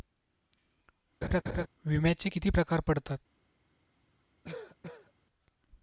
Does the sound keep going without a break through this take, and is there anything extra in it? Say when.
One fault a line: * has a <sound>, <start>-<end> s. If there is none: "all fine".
* has a laugh, 1.2-1.7 s
* has a cough, 4.4-5.1 s